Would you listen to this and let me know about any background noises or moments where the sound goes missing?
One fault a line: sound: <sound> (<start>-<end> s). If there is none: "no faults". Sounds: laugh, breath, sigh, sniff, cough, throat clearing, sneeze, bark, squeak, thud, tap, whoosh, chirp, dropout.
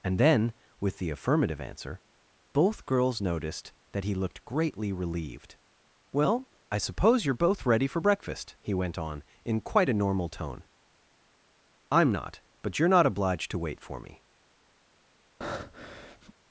sound: breath (15.4-16.3 s)